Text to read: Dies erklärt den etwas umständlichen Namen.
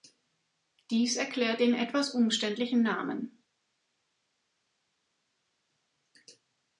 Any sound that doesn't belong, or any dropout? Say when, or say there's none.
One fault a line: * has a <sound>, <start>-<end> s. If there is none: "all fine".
all fine